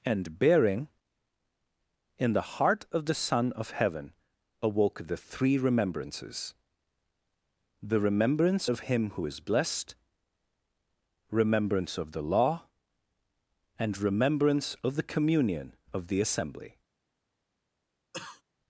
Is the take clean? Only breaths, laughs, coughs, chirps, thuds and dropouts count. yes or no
no